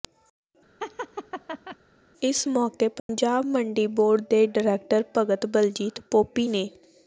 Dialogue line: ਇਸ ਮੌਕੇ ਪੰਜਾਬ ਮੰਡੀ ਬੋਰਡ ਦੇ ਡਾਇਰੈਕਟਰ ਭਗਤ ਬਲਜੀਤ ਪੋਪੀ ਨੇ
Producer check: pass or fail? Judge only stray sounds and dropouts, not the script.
fail